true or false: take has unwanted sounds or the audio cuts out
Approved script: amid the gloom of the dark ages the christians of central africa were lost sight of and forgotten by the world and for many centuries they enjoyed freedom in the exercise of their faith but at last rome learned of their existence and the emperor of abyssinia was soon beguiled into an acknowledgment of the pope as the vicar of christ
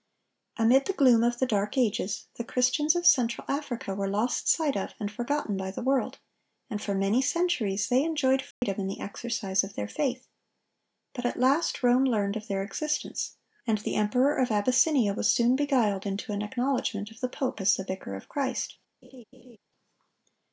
true